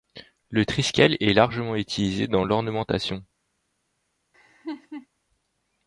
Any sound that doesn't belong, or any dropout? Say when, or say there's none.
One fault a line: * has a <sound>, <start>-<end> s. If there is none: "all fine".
* has a laugh, 4.3-5.1 s